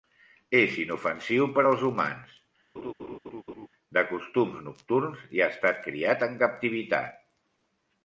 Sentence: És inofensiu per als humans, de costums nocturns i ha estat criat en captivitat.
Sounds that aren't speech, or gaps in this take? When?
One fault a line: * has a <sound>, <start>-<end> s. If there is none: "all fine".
* has a laugh, 2.7-3.7 s